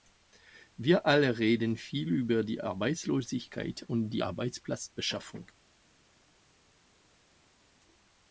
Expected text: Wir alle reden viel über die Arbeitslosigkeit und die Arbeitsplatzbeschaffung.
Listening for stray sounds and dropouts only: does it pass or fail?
pass